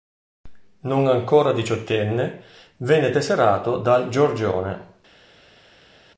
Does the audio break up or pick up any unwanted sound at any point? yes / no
no